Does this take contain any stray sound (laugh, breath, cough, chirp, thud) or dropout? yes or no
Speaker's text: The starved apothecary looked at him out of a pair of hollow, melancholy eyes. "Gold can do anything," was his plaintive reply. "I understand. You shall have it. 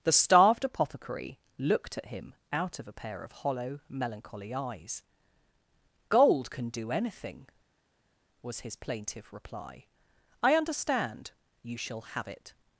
no